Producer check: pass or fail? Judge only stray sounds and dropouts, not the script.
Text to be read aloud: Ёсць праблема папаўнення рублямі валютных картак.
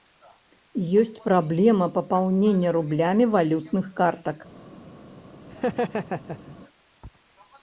fail